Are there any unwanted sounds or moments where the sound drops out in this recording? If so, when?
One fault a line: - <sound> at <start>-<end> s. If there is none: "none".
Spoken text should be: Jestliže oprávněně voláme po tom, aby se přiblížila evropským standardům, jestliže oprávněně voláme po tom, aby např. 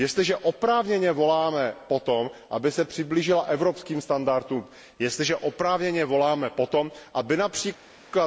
none